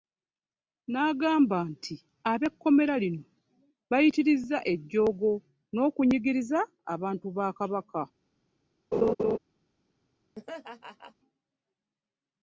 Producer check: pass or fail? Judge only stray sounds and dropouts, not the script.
fail